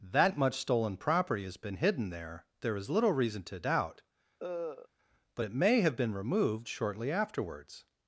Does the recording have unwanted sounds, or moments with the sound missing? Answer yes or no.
yes